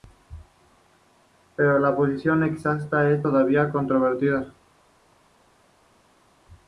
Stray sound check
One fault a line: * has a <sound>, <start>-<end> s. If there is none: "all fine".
all fine